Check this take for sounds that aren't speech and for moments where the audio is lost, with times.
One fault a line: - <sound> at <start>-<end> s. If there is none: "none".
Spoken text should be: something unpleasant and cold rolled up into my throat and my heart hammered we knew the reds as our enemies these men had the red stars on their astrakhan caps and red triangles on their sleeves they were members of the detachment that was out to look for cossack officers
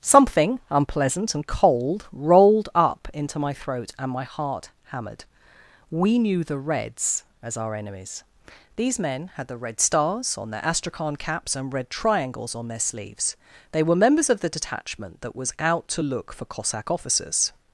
none